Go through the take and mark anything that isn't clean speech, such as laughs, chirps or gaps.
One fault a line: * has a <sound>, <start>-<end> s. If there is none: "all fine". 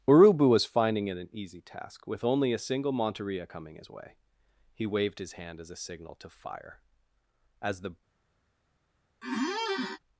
* has a squeak, 9.2-10.0 s